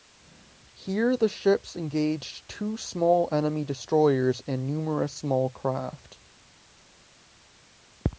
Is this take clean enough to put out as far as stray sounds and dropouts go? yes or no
yes